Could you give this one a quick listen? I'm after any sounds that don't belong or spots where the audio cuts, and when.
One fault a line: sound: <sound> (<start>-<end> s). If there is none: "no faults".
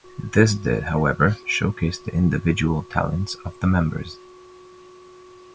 no faults